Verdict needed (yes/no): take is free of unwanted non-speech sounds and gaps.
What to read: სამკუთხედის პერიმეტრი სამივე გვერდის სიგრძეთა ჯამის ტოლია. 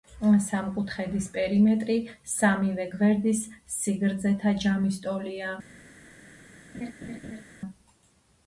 no